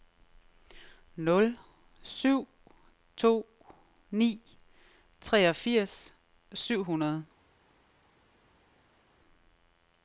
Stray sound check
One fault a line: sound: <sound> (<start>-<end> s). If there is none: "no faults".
no faults